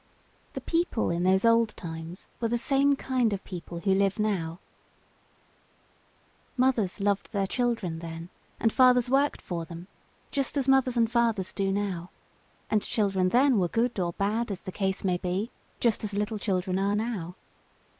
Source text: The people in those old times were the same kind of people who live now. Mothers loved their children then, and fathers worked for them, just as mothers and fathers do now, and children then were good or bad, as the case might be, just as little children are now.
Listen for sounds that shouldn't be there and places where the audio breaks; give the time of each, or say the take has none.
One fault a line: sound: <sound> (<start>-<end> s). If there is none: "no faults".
no faults